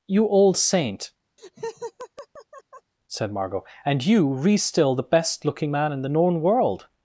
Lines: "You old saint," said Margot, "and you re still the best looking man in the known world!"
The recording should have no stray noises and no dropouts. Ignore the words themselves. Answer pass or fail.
fail